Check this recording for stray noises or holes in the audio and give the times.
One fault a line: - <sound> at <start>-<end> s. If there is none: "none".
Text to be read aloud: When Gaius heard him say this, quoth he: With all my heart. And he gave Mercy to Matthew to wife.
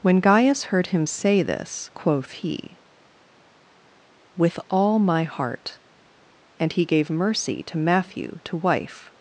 none